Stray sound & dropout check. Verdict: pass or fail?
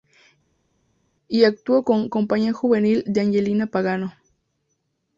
pass